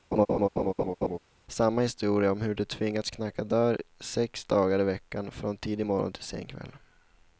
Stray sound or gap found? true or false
true